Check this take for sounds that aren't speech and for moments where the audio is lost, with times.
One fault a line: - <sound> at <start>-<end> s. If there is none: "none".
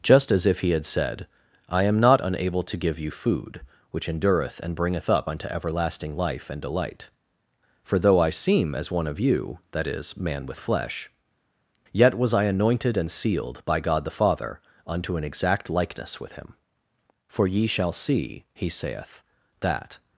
none